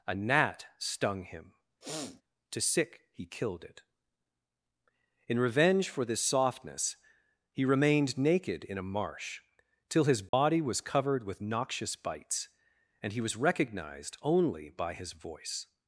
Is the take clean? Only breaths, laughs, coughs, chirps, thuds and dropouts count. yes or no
no